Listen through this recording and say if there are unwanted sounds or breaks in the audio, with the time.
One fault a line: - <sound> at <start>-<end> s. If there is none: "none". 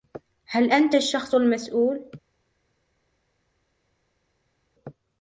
none